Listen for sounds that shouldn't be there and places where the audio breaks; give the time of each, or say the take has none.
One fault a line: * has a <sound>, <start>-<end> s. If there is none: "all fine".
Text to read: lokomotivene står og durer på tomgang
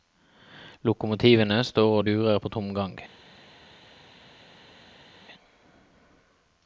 all fine